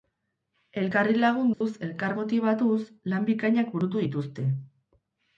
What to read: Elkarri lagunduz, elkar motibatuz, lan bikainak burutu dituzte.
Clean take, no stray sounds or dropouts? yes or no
no